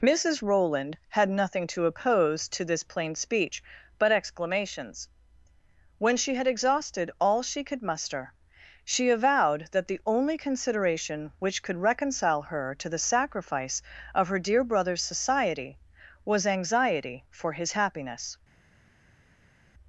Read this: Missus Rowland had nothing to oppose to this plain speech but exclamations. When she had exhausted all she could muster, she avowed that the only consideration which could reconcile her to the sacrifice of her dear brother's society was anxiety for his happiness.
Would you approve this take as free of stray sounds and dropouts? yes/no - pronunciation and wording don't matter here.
yes